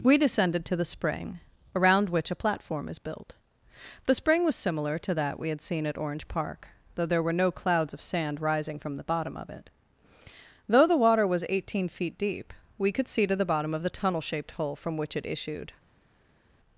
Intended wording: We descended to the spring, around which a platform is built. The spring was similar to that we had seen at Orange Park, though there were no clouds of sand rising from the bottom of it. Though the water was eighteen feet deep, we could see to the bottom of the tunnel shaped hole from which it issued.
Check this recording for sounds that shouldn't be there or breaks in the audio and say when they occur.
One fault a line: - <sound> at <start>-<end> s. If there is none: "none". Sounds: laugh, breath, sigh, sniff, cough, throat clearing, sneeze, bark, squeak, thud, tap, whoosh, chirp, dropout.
none